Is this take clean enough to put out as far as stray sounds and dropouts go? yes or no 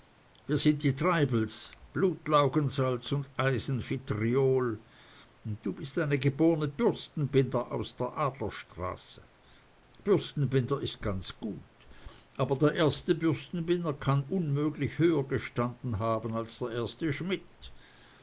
yes